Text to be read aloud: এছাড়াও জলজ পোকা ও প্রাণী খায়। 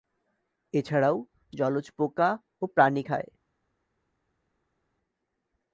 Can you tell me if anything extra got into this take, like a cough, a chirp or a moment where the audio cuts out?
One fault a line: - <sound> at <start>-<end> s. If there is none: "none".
none